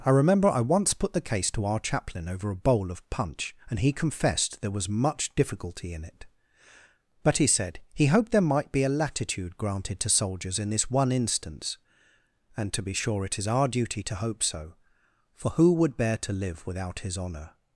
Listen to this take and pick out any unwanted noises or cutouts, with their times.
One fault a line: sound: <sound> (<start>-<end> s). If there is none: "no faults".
no faults